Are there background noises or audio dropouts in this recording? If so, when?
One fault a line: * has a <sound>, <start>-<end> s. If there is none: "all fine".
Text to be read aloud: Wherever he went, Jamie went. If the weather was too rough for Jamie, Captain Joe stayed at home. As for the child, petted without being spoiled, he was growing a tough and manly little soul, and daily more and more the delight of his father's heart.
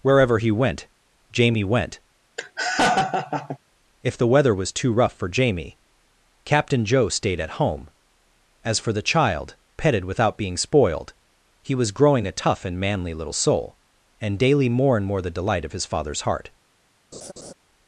* has a laugh, 2.4-3.6 s
* has a laugh, 17.1-17.5 s